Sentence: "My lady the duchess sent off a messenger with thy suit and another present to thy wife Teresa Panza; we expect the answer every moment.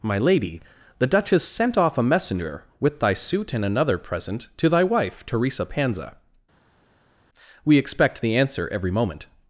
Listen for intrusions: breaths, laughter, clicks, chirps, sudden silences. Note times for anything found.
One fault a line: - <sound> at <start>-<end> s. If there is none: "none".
none